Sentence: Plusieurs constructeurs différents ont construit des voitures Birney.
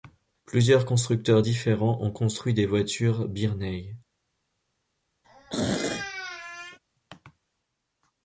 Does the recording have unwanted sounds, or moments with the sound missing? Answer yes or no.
yes